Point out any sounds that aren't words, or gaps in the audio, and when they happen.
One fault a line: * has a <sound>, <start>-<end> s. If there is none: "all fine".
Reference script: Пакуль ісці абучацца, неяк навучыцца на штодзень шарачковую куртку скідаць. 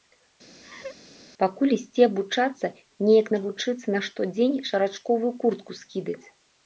* has a laugh, 0.6-1.0 s